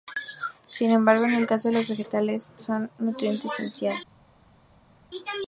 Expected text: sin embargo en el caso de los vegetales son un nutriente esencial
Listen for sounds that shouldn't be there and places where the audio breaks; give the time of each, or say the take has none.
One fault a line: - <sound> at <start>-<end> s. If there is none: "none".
none